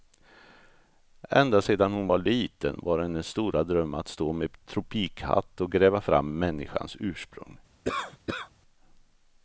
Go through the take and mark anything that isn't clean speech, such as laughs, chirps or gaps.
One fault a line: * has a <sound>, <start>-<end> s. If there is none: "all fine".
* has a cough, 7.8-8.5 s